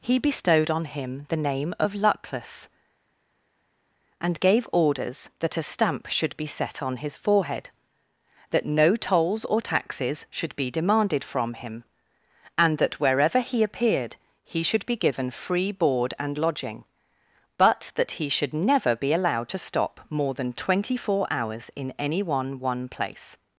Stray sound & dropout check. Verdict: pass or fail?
pass